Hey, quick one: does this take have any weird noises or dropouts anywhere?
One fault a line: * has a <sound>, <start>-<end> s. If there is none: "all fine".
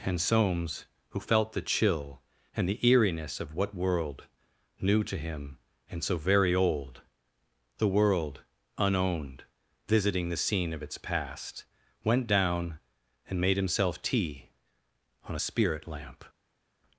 all fine